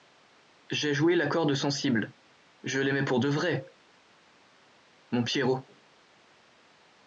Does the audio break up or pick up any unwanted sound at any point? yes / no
no